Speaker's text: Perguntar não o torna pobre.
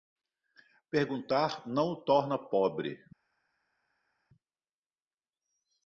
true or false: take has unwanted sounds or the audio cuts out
false